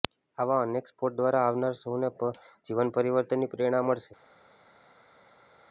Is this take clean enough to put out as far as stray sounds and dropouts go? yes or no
yes